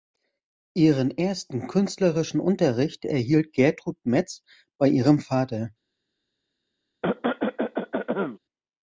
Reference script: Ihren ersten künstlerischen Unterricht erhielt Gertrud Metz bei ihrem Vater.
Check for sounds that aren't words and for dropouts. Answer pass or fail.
fail